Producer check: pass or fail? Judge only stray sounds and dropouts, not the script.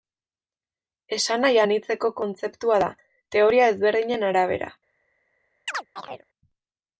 fail